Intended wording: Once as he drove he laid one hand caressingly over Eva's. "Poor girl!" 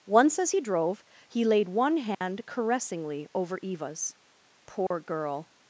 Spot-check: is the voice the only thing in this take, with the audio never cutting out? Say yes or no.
no